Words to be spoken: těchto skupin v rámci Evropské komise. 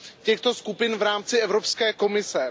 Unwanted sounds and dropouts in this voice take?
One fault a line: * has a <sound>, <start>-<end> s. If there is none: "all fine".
all fine